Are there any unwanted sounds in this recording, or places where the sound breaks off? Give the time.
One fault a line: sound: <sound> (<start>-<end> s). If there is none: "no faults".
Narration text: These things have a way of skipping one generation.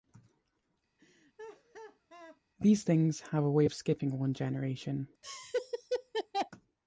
sound: laugh (1.0-2.4 s)
sound: laugh (5.2-6.5 s)